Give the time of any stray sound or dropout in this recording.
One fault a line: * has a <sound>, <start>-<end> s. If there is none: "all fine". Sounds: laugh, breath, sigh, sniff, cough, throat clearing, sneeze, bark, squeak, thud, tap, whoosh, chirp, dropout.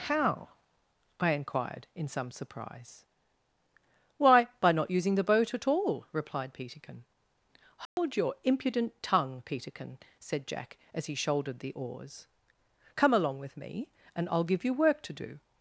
* has a dropout, 7.9-8.0 s